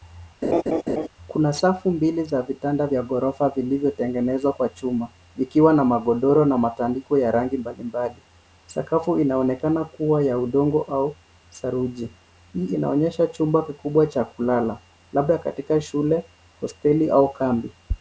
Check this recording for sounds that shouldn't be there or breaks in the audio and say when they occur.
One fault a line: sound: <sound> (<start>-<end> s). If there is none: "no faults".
sound: laugh (0.4-1.1 s)